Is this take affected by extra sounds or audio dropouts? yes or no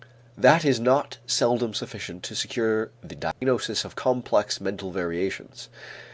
yes